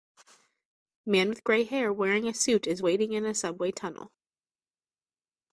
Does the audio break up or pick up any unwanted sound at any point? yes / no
no